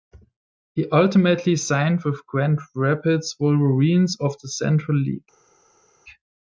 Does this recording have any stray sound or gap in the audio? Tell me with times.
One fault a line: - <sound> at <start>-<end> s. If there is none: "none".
none